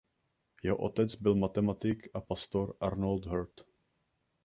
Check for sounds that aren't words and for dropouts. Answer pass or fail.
pass